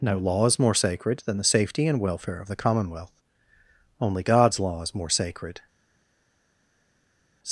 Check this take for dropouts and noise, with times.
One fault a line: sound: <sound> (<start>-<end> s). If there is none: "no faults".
no faults